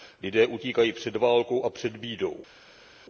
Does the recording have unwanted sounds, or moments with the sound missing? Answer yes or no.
no